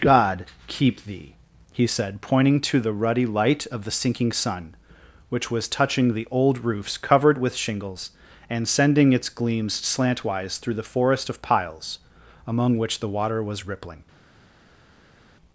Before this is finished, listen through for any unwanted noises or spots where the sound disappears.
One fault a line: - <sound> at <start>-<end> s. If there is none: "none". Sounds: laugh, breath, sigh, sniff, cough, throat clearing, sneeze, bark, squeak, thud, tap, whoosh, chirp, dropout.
none